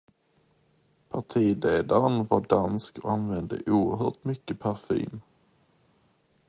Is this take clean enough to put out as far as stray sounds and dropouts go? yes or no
yes